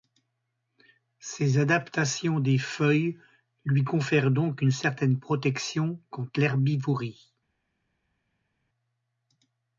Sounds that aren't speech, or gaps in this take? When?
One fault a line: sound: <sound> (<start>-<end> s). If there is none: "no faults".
no faults